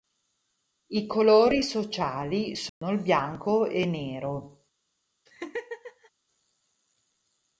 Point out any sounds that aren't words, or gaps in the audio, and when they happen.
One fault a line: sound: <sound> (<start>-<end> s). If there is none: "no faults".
sound: dropout (2.7-2.8 s)
sound: laugh (5.3-6.1 s)